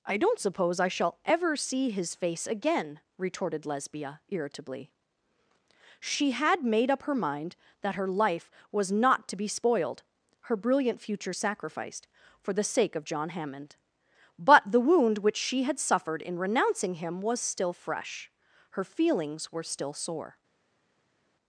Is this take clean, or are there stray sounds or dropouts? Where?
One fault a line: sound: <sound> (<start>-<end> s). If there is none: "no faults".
no faults